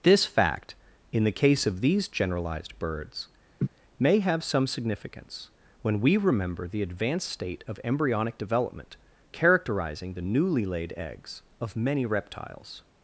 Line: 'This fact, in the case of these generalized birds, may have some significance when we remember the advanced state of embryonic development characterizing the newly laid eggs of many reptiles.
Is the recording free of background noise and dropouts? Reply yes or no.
no